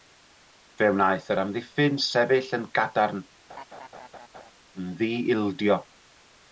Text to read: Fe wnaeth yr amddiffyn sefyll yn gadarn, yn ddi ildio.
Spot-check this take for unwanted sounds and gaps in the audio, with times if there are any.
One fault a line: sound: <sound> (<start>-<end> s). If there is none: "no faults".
sound: laugh (3.5-4.5 s)